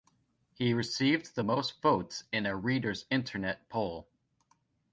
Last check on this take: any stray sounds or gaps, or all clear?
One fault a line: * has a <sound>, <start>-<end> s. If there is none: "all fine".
all fine